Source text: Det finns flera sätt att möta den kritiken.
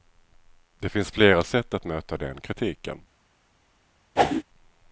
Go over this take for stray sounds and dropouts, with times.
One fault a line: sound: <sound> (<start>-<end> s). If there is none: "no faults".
sound: whoosh (4.2-4.4 s)